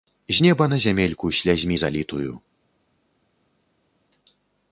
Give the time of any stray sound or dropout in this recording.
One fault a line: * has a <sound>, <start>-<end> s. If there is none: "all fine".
all fine